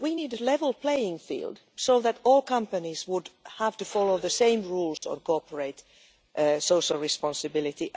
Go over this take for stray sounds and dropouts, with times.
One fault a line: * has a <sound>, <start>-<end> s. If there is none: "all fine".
* has a dropout, 5.0-5.0 s